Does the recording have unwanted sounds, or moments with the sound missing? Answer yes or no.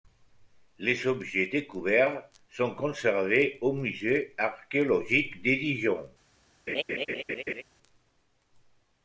yes